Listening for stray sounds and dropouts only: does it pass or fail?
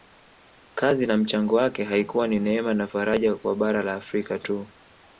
pass